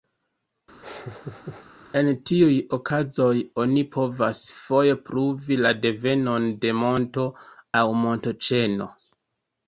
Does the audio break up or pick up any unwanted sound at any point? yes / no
yes